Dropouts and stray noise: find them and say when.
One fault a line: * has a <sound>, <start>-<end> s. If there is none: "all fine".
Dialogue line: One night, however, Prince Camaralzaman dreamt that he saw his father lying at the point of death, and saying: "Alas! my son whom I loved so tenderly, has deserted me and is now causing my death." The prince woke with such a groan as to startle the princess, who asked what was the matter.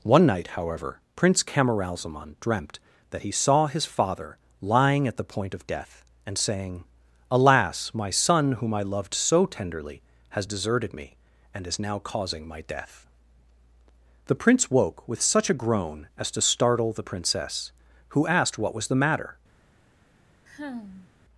* has a sigh, 20.5-21.1 s